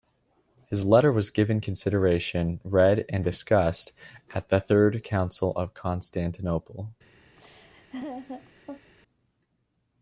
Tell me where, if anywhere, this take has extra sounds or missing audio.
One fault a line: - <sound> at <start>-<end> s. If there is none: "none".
- laugh at 7.4-8.9 s